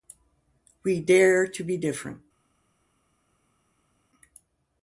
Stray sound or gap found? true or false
false